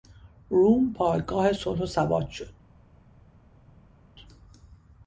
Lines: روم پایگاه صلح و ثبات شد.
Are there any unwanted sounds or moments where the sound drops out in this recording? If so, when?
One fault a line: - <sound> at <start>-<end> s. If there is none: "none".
none